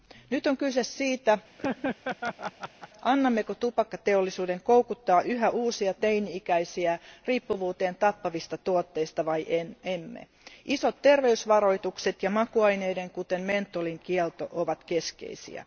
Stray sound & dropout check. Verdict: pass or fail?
fail